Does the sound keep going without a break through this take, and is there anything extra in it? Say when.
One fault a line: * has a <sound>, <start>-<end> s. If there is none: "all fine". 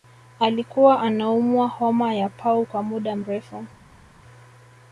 all fine